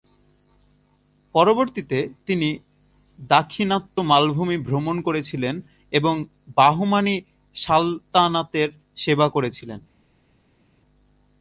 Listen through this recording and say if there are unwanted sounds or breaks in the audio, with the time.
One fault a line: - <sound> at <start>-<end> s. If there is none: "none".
none